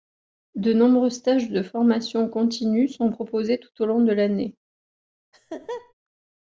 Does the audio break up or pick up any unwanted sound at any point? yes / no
yes